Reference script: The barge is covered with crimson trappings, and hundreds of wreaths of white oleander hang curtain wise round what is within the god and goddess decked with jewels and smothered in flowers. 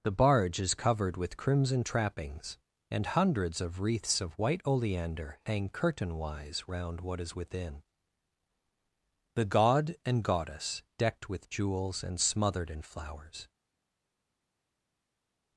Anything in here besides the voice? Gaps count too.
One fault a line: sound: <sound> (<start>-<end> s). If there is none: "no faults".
no faults